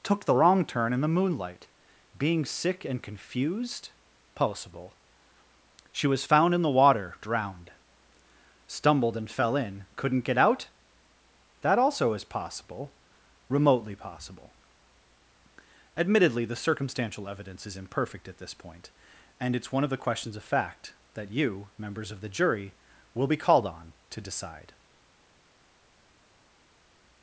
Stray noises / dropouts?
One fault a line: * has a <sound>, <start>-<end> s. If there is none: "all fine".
all fine